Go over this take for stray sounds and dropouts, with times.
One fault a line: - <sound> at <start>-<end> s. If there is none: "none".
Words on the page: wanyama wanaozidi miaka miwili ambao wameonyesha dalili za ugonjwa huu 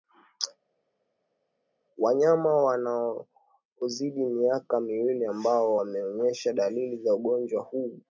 none